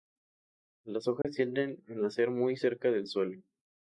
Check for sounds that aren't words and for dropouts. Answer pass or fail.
fail